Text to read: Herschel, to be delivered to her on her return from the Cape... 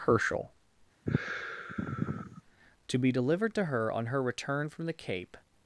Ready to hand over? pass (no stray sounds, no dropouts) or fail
fail